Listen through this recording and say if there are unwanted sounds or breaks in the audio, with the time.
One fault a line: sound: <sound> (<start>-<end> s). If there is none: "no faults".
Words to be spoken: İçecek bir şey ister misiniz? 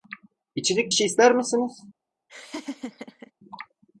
sound: laugh (2.3-3.3 s)